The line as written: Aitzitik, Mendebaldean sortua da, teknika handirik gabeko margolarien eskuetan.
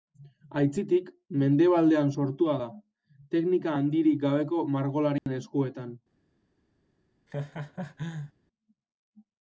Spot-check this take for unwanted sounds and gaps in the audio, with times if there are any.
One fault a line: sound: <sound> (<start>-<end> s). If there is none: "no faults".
sound: dropout (5.2-5.3 s)
sound: laugh (7.3-8.3 s)